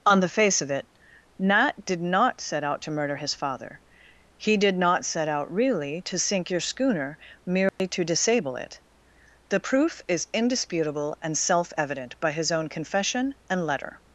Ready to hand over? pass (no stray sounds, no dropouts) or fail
fail